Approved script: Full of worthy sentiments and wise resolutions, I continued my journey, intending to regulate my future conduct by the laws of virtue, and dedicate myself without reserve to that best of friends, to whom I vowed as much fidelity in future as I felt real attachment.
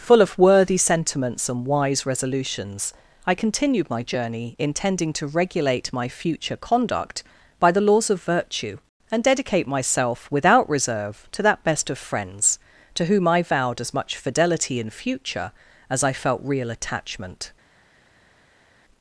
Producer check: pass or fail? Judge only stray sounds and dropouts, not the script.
pass